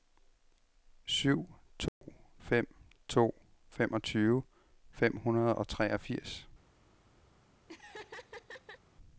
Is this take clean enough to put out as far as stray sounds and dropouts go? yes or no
no